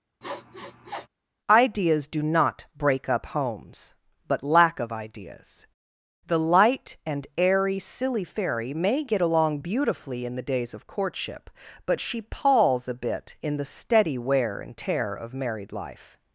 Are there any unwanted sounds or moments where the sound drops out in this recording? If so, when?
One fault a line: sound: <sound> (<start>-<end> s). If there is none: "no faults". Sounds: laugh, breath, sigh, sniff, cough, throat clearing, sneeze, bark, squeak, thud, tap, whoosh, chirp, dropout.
sound: sniff (0.2-1.1 s)